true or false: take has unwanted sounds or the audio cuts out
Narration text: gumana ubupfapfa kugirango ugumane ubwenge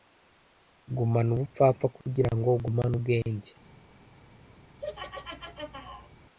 true